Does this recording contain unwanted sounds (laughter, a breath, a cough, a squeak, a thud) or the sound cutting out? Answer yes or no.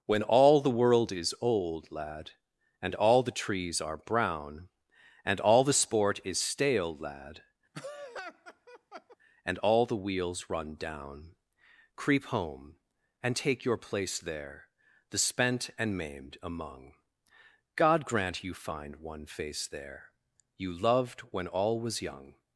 yes